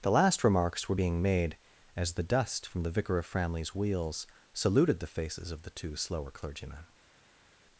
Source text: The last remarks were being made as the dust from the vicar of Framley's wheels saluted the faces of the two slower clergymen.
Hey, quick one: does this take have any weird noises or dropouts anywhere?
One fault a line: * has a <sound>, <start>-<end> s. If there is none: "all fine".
all fine